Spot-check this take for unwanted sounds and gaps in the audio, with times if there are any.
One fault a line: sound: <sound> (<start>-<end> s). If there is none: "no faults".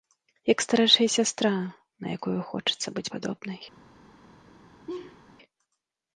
sound: laugh (4.9-5.2 s)